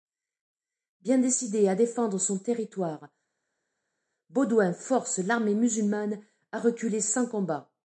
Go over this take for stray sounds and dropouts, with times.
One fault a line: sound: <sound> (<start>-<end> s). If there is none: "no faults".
no faults